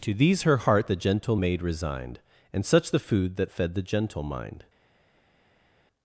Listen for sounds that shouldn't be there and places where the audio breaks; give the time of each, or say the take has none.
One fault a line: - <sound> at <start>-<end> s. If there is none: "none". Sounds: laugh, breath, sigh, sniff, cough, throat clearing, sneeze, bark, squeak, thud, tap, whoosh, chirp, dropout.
none